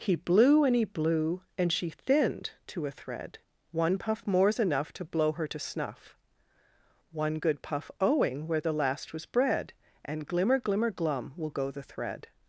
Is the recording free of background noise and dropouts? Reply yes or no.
yes